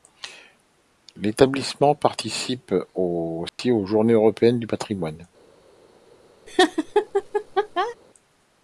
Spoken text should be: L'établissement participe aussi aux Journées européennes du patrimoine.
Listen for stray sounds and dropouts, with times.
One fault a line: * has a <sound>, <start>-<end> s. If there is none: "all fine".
* has a dropout, 3.5-3.6 s
* has a laugh, 6.5-8.0 s